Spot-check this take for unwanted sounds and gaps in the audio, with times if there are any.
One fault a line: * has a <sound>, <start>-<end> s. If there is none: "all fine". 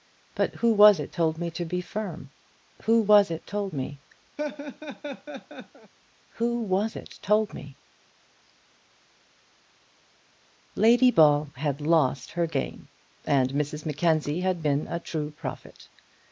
* has a laugh, 4.4-5.9 s